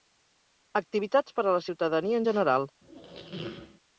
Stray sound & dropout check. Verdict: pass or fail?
fail